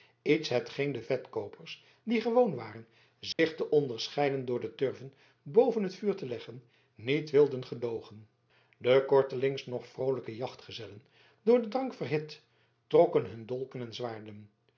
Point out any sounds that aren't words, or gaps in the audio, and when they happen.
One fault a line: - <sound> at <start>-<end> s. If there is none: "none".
- dropout at 3.3-3.4 s